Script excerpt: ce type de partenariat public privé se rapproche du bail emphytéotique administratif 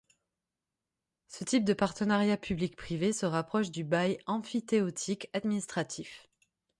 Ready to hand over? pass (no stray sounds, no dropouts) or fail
pass